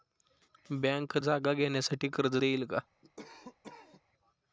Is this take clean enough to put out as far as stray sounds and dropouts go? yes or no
no